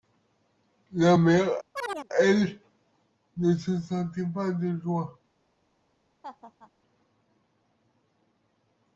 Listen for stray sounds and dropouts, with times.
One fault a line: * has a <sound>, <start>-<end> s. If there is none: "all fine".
* has a chirp, 1.8-2.1 s
* has a laugh, 6.2-6.7 s